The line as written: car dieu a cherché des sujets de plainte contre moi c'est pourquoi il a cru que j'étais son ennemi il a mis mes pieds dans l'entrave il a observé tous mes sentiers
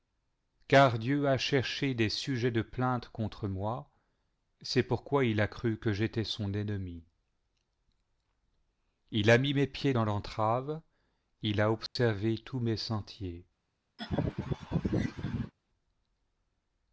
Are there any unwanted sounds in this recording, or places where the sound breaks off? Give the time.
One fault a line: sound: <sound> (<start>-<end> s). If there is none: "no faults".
sound: dropout (11.9-12.0 s)
sound: laugh (14.0-15.5 s)